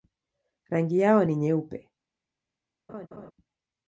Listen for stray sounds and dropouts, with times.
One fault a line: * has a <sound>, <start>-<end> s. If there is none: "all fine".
* has a laugh, 2.9-3.3 s